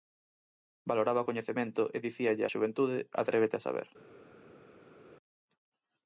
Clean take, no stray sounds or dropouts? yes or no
yes